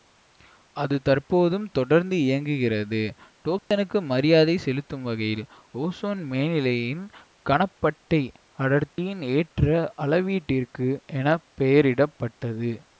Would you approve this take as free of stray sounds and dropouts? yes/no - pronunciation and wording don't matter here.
no